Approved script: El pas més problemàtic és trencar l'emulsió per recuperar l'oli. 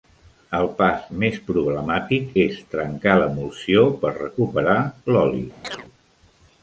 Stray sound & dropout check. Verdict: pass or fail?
fail